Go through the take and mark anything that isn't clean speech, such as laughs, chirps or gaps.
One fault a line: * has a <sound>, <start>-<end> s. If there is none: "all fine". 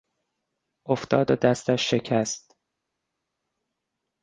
all fine